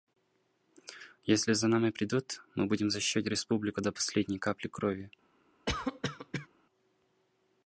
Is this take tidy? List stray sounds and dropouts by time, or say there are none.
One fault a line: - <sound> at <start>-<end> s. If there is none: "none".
- cough at 5.7-6.5 s